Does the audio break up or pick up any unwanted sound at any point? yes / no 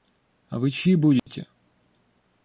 yes